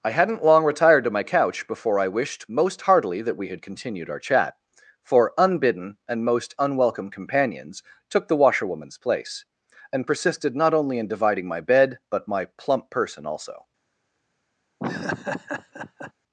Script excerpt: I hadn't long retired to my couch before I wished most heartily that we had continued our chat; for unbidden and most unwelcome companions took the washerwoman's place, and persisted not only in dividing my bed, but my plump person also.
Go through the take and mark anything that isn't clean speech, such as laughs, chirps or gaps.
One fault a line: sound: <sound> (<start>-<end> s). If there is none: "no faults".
sound: laugh (14.8-16.1 s)